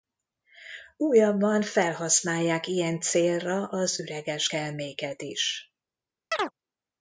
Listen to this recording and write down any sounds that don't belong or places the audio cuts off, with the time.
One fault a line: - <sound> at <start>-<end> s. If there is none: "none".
- chirp at 6.3-6.5 s